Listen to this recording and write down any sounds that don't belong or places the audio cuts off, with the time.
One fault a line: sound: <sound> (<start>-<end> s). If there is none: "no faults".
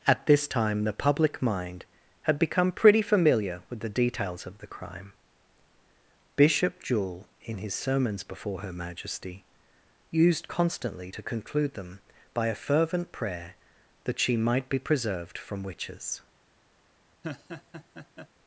sound: laugh (17.2-18.3 s)